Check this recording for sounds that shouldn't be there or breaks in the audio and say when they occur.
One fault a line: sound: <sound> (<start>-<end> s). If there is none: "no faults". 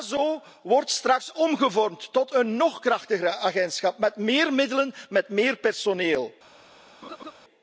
sound: laugh (7.0-7.3 s)